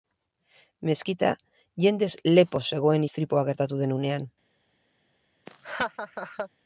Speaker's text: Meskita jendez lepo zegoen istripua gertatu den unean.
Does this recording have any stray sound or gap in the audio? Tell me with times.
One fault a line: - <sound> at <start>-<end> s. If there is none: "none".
- laugh at 5.5-6.5 s